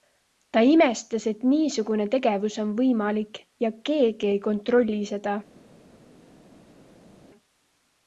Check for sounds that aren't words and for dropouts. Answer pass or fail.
pass